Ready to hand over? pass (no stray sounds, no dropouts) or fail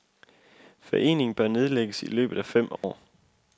fail